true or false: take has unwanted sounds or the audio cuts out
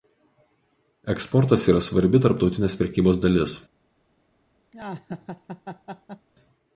true